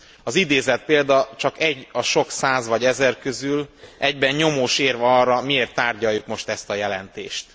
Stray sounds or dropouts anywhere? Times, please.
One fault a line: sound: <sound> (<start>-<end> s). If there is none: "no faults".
no faults